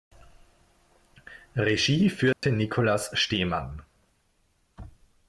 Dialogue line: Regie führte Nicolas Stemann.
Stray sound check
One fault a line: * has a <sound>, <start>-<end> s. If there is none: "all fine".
* has a dropout, 2.3-2.4 s